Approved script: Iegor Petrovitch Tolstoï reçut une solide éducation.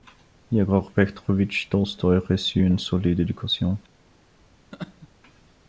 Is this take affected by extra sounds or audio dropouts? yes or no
yes